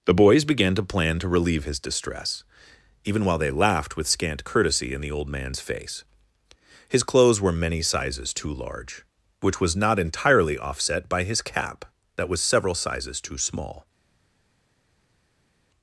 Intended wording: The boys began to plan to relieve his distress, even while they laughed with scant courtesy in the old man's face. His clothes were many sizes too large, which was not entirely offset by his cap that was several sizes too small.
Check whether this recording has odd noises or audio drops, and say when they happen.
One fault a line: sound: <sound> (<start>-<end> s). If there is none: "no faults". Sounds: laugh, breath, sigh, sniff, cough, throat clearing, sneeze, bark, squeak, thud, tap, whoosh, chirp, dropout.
no faults